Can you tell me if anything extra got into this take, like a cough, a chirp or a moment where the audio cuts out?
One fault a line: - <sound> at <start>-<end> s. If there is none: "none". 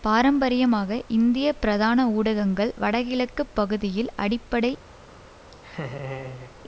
- laugh at 5.5-6.6 s